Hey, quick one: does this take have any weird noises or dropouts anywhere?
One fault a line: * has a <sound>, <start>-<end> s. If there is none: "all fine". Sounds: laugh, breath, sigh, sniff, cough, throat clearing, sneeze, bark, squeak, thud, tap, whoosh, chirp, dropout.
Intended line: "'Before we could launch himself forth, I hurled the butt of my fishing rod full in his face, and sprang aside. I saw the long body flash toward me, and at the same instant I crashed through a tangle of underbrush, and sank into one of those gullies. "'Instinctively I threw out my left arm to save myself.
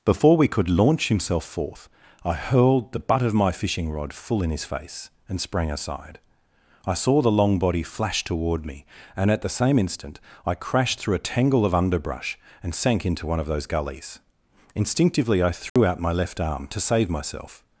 * has a dropout, 15.7-15.8 s